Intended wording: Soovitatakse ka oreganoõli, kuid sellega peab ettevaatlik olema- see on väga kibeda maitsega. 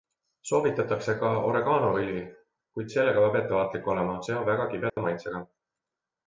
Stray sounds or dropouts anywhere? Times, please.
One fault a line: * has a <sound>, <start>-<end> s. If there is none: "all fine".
* has a dropout, 4.9-5.0 s